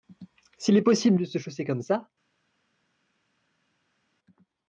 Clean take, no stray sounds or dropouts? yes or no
yes